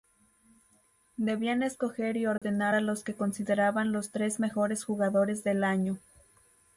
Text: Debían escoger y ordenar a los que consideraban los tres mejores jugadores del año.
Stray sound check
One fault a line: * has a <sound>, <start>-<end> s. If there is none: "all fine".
* has a dropout, 2.4-2.4 s